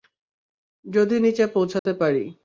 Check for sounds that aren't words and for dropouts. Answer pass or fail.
fail